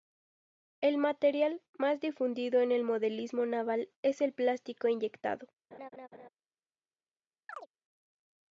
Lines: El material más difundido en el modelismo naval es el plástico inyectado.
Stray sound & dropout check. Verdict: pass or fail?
fail